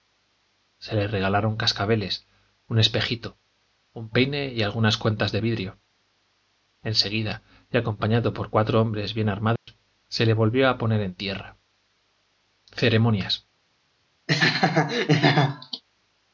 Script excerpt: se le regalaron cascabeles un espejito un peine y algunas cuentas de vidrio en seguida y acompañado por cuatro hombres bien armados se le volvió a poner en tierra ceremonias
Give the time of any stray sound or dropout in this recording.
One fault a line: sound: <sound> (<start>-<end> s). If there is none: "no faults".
sound: dropout (9.6-9.7 s)
sound: laugh (14.3-15.8 s)